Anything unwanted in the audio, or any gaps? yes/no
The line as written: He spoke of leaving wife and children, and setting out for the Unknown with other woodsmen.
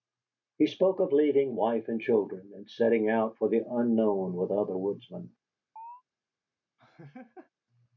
yes